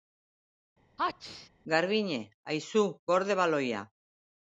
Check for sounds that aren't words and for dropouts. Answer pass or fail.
fail